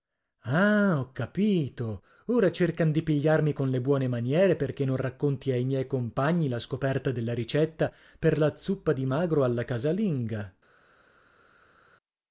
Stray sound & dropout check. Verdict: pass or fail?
pass